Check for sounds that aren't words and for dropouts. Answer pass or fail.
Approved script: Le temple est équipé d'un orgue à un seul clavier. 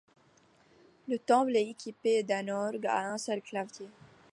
pass